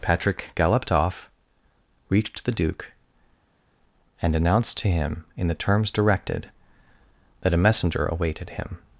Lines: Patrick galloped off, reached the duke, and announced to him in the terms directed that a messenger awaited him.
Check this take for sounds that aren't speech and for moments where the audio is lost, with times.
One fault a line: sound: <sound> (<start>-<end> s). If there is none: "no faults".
no faults